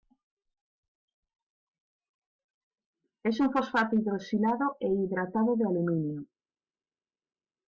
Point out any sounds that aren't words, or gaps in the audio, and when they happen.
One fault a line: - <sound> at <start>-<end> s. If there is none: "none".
none